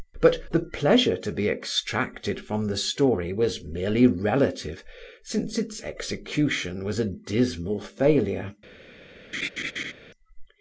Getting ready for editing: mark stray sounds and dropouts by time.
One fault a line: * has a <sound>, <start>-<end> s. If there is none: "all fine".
* has a laugh, 9.3-9.9 s